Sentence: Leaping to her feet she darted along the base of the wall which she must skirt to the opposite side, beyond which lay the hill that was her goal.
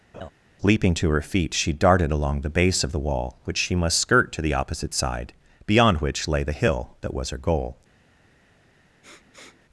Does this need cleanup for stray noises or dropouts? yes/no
yes